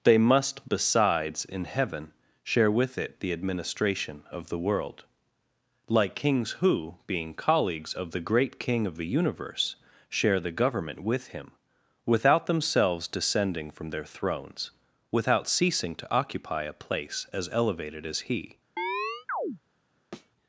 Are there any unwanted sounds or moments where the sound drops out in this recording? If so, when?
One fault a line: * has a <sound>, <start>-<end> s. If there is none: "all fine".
* has a chirp, 18.8-19.6 s
* has a thud, 20.1-20.3 s